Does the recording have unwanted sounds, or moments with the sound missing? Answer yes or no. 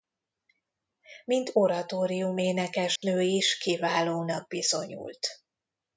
yes